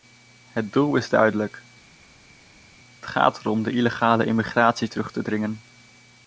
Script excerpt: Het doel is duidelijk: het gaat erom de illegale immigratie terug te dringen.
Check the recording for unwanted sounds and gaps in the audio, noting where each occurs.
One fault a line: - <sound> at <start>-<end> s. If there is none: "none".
none